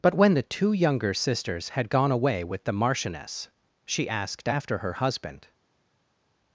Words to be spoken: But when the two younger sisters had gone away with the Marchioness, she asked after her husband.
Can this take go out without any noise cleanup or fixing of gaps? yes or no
yes